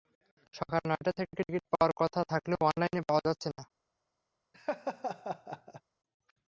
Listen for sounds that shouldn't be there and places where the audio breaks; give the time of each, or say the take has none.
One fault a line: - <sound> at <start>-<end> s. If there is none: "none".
- laugh at 4.5-5.8 s